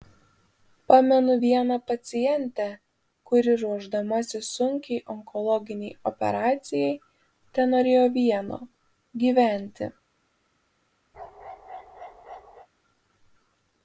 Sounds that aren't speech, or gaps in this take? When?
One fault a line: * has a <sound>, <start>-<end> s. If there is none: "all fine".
* has a bark, 11.1-12.7 s